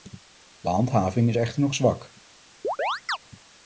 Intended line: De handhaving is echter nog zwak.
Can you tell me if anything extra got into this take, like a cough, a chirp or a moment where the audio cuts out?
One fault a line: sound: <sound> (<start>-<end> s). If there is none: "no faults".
sound: chirp (2.6-3.2 s)